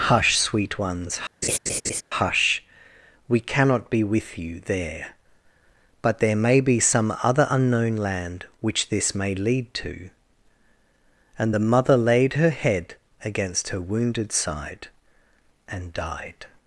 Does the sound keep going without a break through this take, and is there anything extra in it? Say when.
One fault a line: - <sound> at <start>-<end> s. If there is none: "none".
- laugh at 1.4-2.0 s